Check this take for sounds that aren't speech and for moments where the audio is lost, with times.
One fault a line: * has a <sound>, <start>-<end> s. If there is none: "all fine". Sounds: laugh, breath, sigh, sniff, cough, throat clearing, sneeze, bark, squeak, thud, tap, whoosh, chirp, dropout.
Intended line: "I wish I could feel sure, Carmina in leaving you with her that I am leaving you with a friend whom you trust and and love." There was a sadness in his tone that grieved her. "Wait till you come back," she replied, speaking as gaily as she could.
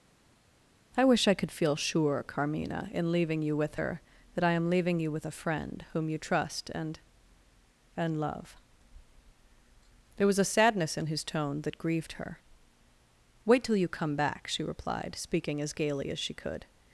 all fine